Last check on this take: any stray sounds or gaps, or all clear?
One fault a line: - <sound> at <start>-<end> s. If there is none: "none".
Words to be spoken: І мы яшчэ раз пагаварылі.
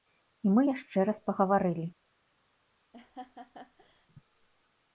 - laugh at 2.9-4.1 s